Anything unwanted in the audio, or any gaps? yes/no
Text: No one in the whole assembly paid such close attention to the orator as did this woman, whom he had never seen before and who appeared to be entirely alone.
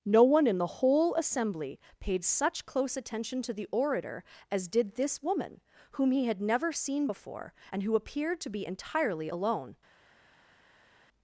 no